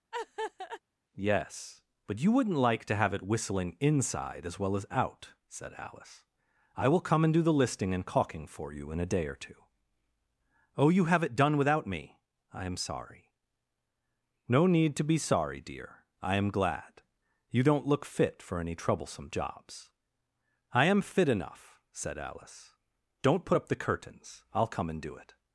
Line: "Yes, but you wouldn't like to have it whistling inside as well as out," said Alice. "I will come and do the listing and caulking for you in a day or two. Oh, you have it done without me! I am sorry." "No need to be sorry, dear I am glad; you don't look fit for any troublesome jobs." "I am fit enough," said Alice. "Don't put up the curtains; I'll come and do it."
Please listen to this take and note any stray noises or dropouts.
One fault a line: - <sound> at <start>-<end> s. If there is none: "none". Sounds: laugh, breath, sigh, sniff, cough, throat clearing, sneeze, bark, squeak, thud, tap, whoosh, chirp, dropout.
- laugh at 0.1-0.8 s